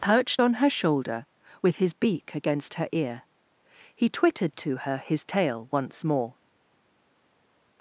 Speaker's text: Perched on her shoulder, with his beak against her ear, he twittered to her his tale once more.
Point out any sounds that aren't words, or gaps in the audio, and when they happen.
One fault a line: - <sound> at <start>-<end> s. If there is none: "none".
none